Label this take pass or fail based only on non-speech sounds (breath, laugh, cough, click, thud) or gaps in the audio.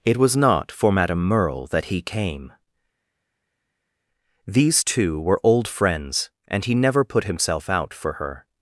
pass